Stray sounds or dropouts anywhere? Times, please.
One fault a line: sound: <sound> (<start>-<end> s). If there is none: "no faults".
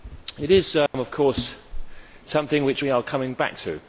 sound: dropout (0.9-0.9 s)